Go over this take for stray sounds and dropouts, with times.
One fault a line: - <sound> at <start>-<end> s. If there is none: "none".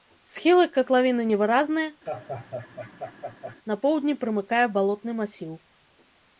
- laugh at 2.1-3.6 s